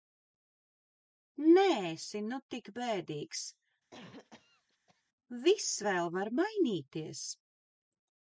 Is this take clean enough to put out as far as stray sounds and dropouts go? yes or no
no